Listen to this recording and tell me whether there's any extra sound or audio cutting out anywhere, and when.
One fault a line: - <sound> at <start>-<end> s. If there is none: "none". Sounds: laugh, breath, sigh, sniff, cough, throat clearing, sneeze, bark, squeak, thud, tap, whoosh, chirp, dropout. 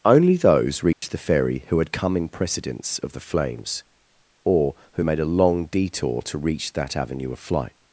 - dropout at 0.9-1.0 s